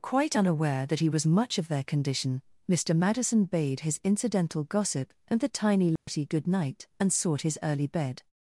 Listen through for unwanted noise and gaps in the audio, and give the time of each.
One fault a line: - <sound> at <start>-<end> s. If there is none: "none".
- dropout at 6.0-6.1 s